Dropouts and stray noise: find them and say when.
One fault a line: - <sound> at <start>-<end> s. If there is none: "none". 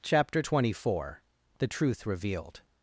none